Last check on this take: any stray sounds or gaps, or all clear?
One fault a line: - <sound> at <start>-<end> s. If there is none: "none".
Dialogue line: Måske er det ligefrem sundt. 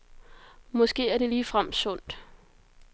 none